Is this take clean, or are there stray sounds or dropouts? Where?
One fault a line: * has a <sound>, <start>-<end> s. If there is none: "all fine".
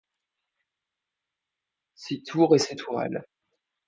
all fine